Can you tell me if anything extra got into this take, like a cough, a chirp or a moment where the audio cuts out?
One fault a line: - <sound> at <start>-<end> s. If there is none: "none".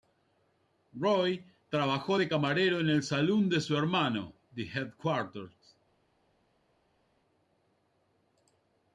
none